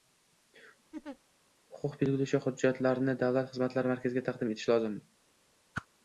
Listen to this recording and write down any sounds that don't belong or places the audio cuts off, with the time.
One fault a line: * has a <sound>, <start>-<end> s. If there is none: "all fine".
* has a laugh, 0.9-1.2 s
* has a whoosh, 5.7-5.9 s